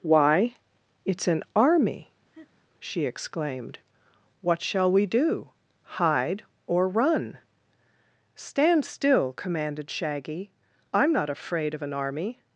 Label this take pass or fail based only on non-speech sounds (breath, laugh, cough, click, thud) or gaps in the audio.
fail